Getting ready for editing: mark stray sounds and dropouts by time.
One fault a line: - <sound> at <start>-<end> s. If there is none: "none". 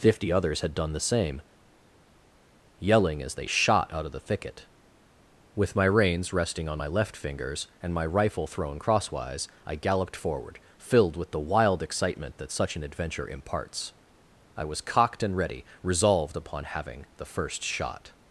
none